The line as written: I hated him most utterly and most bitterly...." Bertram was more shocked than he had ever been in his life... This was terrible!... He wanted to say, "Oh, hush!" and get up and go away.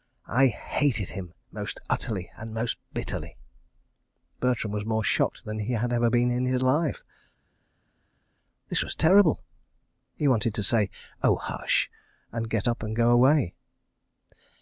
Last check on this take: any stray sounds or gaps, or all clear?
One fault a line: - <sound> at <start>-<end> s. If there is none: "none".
none